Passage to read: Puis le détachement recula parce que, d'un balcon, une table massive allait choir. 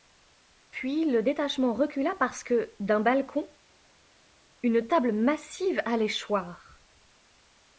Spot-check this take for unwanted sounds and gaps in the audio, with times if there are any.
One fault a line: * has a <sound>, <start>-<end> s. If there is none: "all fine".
all fine